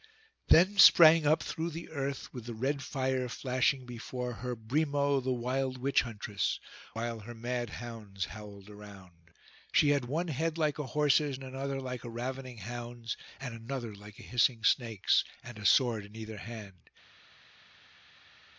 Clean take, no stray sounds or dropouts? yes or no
yes